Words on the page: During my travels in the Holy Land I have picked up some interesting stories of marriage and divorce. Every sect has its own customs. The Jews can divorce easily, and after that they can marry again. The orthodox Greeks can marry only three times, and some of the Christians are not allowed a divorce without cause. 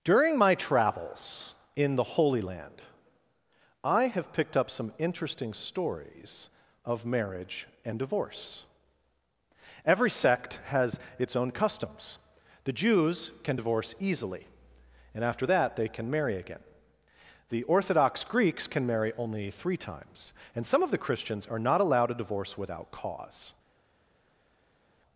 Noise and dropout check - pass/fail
pass